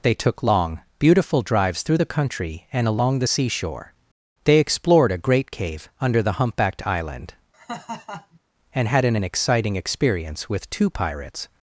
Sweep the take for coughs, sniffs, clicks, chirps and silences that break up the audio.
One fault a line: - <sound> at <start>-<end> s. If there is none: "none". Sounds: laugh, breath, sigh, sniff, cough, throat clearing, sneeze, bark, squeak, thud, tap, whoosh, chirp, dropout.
- laugh at 7.5-8.4 s